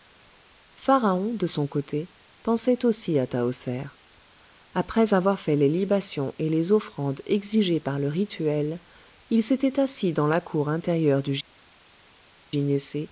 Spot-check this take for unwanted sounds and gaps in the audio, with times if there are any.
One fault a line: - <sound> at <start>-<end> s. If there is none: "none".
none